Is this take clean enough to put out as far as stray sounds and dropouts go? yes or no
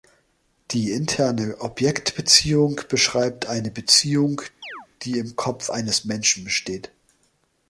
no